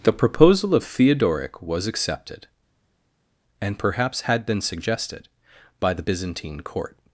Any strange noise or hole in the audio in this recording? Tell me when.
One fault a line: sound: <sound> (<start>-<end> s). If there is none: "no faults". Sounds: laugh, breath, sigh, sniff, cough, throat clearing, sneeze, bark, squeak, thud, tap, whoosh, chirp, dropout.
no faults